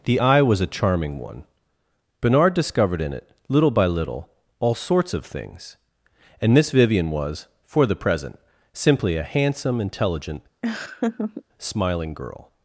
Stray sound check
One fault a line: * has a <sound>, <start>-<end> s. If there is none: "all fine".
* has a laugh, 10.6-11.4 s